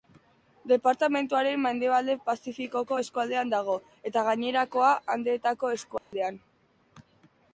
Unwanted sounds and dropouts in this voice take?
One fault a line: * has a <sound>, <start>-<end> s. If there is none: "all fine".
* has a dropout, 6.0-6.1 s